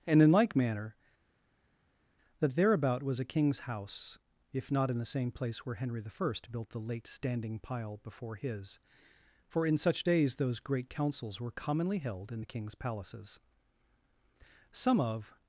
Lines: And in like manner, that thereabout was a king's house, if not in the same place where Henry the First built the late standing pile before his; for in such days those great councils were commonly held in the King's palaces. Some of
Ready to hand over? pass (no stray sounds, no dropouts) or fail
pass